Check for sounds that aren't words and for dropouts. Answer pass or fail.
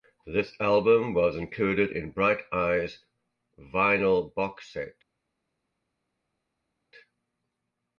pass